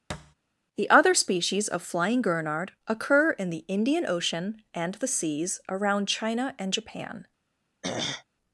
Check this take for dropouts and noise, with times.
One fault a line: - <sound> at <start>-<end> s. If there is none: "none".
- thud at 0.1-0.3 s
- throat clearing at 7.8-8.2 s